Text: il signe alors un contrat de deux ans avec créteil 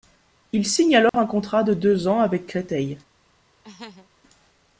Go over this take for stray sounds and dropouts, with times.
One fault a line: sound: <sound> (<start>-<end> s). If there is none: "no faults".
sound: dropout (1.1-1.1 s)
sound: laugh (3.6-4.1 s)